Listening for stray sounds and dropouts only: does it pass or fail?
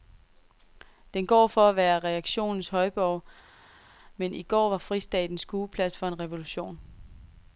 pass